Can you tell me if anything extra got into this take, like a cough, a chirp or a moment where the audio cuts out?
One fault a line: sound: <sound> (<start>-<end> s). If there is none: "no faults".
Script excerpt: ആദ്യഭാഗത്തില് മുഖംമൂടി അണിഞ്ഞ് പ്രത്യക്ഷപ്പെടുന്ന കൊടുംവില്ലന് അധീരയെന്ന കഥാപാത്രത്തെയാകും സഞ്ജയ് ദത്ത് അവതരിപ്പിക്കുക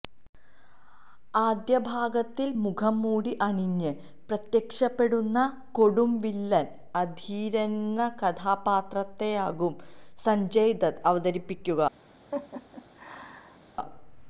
sound: laugh (12.3-13.6 s)